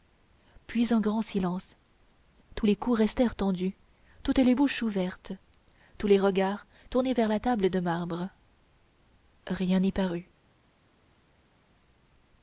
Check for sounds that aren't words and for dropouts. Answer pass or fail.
pass